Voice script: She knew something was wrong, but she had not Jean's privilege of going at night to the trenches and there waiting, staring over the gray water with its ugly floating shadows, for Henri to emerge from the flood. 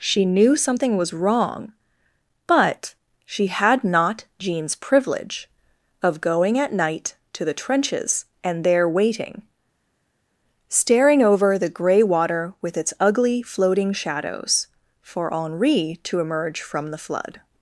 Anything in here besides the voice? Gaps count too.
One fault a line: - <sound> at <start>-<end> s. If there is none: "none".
none